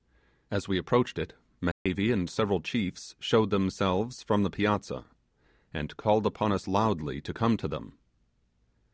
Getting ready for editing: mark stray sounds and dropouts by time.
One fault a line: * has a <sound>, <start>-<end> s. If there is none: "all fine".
* has a dropout, 1.7-1.9 s